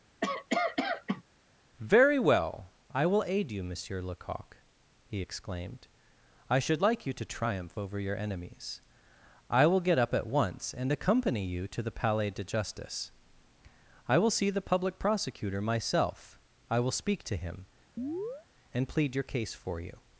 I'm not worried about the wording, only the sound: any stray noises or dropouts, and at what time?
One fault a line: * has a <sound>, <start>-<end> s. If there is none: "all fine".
* has a cough, 0.2-1.2 s
* has a chirp, 18.0-18.5 s